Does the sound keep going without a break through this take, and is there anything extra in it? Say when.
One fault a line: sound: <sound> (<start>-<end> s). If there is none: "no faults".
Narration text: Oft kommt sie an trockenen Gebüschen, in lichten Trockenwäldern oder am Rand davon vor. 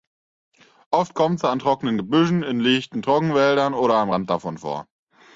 no faults